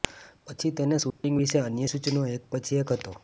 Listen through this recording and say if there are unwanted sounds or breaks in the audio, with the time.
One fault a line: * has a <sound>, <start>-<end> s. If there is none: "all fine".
* has a dropout, 1.1-1.2 s